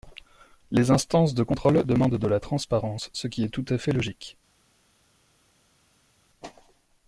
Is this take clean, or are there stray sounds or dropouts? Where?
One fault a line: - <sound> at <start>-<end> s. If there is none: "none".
none